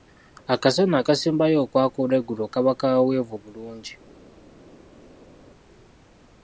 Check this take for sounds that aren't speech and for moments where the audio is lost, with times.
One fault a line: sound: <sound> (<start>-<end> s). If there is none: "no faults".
no faults